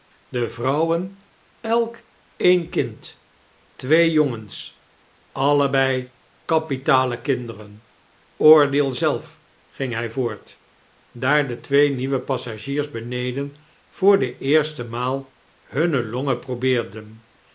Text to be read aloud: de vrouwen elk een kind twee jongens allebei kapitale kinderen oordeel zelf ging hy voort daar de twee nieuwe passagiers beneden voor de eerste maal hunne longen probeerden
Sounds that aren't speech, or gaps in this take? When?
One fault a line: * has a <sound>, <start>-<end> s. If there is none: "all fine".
all fine